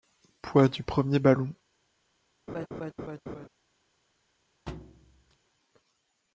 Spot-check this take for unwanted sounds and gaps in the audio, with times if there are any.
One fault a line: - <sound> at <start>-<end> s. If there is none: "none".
- laugh at 2.5-3.5 s
- thud at 4.7-5.4 s